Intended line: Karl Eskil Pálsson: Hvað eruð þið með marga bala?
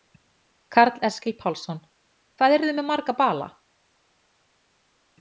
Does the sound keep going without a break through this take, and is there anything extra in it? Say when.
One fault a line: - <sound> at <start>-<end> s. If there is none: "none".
none